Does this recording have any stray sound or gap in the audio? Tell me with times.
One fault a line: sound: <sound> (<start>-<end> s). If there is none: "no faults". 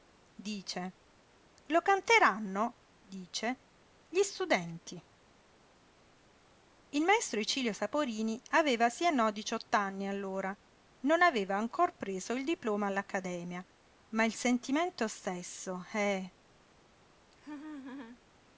sound: laugh (17.3-18.2 s)